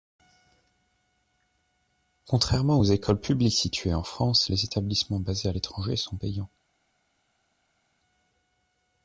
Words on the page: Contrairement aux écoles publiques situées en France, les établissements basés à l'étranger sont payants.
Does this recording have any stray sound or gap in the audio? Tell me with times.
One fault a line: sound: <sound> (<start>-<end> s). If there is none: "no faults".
no faults